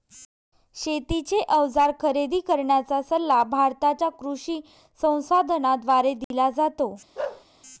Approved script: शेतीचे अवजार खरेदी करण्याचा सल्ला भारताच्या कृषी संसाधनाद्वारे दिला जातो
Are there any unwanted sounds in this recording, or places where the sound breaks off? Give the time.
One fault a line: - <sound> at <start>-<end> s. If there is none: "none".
- dropout at 6.2-6.3 s
- bark at 7.1-7.4 s